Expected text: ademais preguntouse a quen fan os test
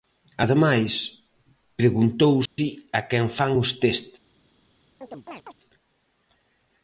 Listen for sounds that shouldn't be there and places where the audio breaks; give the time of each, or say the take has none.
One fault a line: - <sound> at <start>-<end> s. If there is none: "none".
- dropout at 2.5-2.6 s
- chirp at 5.0-5.6 s